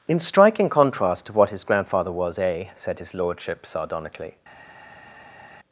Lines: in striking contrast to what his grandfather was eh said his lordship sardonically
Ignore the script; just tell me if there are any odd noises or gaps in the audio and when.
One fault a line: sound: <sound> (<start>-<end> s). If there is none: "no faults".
no faults